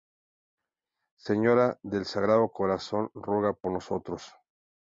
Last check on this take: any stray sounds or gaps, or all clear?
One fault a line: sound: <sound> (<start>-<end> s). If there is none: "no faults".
no faults